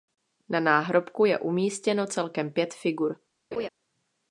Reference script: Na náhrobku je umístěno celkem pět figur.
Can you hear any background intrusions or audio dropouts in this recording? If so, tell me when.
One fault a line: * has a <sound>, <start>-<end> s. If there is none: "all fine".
* has a laugh, 3.5-3.7 s